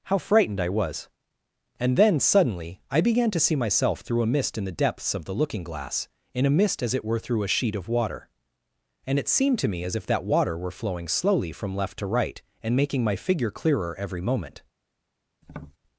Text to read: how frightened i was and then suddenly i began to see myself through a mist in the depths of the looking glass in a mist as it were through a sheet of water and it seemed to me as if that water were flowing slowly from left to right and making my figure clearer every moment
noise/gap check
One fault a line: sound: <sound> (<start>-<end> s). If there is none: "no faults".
sound: tap (15.4-15.8 s)